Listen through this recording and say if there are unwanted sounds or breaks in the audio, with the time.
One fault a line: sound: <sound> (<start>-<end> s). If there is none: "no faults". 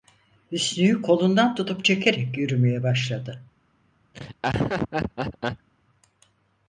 sound: laugh (4.1-5.7 s)